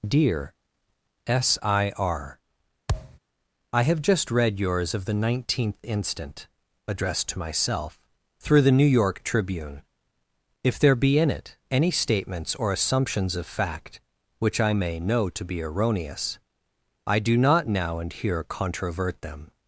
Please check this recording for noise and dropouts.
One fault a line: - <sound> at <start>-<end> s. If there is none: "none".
- thud at 2.9-3.2 s